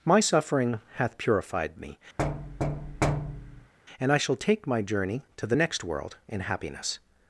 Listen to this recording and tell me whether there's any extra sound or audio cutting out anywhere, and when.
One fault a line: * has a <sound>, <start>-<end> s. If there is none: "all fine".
* has a thud, 2.2-3.7 s